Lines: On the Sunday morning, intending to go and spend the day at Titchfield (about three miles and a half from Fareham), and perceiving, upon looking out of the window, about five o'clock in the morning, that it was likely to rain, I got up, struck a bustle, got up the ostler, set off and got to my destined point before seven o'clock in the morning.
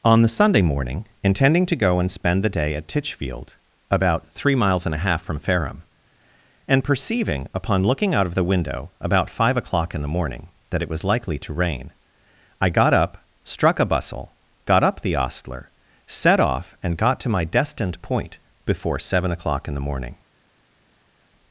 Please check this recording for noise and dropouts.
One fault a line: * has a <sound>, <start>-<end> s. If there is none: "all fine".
all fine